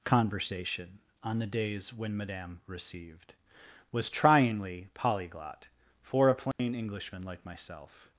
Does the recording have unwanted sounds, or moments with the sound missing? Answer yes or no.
yes